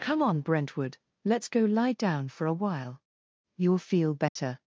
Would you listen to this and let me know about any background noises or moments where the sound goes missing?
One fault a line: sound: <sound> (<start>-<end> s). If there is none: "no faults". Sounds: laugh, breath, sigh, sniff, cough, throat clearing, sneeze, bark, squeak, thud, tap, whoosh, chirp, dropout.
sound: dropout (4.3-4.4 s)